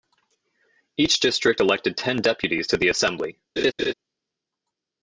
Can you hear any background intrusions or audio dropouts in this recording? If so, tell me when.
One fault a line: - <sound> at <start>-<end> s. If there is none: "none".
- laugh at 3.6-3.9 s